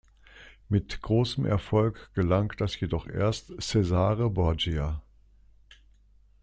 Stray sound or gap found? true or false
false